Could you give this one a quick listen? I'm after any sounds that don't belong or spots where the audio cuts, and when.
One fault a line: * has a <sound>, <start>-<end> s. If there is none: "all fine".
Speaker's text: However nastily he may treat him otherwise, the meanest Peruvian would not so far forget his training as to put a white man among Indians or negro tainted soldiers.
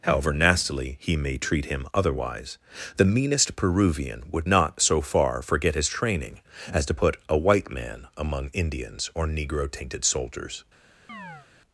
* has a chirp, 11.1-11.5 s